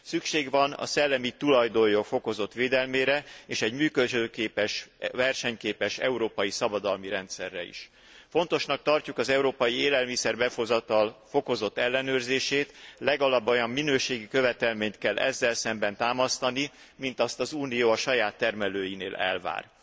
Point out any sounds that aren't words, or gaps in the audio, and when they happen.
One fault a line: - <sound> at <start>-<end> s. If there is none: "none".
none